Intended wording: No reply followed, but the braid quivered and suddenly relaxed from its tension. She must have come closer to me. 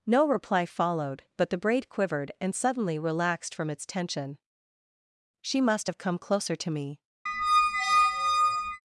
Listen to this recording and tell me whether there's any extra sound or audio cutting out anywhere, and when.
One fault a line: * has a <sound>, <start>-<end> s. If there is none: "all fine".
* has a squeak, 7.3-8.8 s